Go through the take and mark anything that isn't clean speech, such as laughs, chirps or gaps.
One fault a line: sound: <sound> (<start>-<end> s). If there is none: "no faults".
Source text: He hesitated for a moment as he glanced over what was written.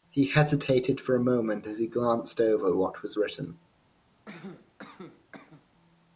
sound: cough (4.3-5.7 s)